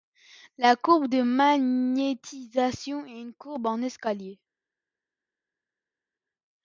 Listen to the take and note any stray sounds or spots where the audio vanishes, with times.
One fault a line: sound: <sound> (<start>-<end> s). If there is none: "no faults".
no faults